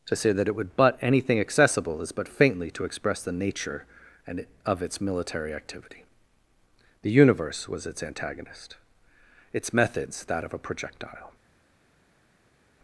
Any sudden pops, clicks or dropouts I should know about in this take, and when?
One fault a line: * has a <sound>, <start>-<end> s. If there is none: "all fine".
all fine